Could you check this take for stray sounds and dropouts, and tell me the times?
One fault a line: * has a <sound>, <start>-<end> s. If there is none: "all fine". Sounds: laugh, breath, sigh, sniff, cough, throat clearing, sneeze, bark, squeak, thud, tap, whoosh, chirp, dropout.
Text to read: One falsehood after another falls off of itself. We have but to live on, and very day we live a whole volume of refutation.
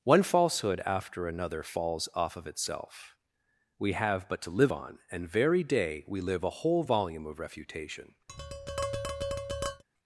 * has a tap, 8.3-9.8 s